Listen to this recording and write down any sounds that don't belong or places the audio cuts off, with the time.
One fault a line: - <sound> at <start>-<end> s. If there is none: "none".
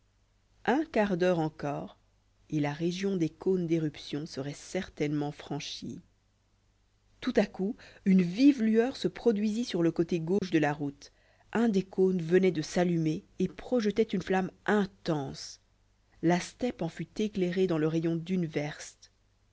- dropout at 10.4-10.4 s